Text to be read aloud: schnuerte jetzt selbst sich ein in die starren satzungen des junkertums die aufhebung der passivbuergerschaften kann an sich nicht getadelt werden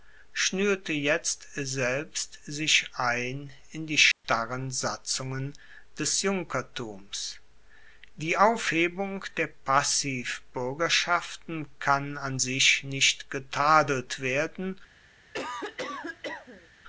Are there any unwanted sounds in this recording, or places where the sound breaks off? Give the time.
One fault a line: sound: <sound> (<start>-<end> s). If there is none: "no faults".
sound: dropout (4.1-4.2 s)
sound: cough (15.3-16.7 s)